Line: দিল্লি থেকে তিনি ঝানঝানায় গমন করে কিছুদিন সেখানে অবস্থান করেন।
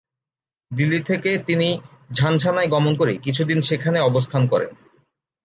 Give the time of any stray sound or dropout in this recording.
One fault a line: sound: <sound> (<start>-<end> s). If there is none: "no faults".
no faults